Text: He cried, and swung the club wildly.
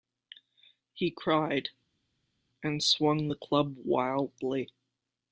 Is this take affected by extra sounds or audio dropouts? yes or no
no